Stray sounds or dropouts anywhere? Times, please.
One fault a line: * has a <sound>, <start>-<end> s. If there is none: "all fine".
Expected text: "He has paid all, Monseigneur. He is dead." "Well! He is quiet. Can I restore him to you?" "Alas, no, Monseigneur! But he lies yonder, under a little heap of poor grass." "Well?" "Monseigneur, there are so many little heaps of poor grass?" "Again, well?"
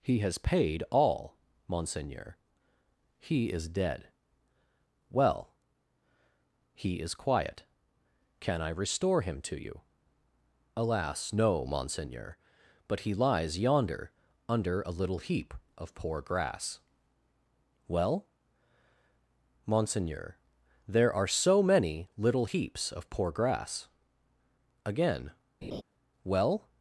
* has a laugh, 25.6-25.8 s